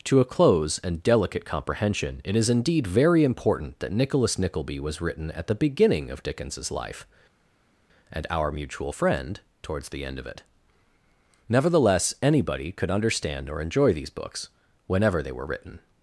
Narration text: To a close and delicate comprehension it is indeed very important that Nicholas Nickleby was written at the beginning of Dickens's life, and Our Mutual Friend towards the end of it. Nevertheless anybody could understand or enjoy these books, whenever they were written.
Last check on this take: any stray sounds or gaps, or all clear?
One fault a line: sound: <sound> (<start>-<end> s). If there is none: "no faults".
no faults